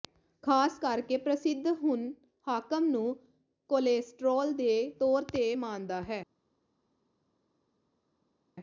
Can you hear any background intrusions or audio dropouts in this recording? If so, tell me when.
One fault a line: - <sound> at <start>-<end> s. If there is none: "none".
none